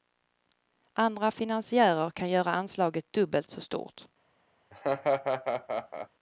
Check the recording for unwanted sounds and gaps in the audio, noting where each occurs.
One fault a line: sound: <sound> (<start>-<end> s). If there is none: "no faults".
sound: laugh (4.7-6.1 s)